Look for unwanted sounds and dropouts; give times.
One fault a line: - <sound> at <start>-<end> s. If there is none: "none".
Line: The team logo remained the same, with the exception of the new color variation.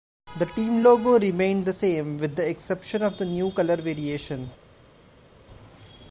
none